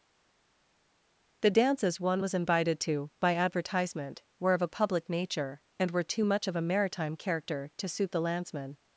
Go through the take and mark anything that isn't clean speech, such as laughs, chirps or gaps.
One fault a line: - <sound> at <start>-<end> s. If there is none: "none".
none